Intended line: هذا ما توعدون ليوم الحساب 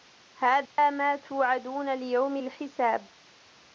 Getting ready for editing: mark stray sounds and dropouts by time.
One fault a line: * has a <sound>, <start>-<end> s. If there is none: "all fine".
* has a dropout, 0.7-0.8 s